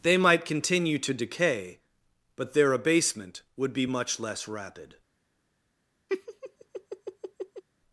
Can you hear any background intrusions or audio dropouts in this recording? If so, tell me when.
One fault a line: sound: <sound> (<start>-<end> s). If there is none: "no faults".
sound: laugh (6.1-7.6 s)